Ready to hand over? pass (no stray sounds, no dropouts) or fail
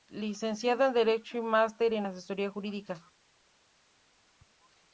pass